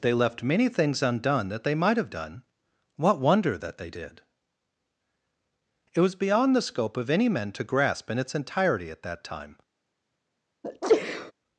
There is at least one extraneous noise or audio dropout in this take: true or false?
true